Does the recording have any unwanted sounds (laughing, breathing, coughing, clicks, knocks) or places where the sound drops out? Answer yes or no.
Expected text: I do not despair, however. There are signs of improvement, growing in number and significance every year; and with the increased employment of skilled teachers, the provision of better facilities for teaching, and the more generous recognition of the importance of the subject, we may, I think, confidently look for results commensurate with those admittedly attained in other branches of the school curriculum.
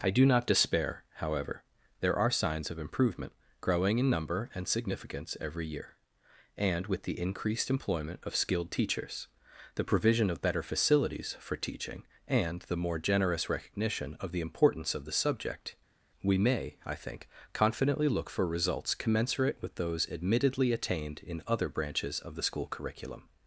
no